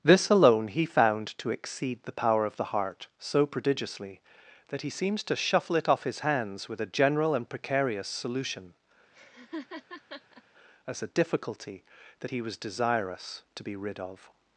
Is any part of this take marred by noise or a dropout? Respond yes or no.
yes